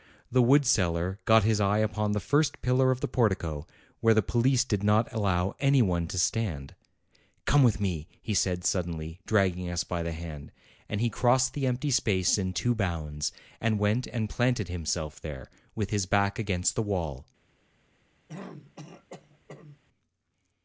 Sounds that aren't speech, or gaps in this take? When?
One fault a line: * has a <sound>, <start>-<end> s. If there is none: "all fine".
* has a throat clearing, 18.3-19.8 s